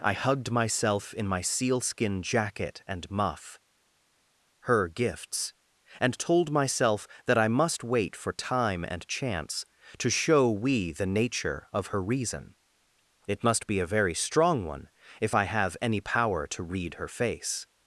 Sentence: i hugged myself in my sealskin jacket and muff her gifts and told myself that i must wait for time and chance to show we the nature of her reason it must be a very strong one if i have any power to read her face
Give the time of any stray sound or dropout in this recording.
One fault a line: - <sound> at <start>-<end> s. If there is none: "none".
none